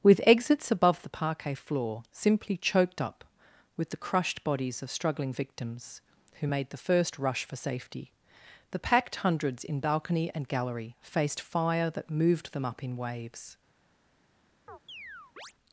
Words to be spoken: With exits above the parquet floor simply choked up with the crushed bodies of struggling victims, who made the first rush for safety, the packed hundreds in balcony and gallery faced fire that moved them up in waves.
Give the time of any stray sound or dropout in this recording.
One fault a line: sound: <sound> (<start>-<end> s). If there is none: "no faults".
sound: chirp (14.7-15.5 s)